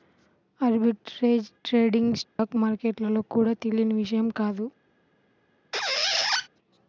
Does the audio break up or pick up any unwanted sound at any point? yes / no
yes